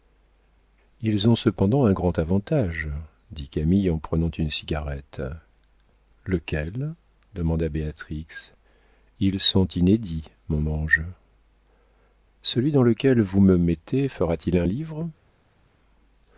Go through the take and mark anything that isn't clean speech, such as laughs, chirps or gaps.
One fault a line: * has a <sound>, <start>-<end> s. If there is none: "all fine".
all fine